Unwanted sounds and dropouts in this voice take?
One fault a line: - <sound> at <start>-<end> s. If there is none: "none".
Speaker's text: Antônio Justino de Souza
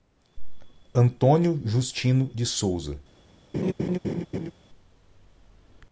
- laugh at 3.5-4.5 s